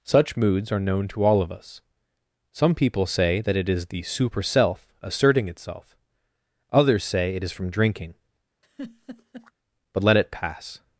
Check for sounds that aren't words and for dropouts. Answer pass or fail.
fail